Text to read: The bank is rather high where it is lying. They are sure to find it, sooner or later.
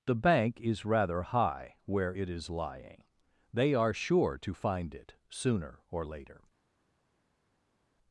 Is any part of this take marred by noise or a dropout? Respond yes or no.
no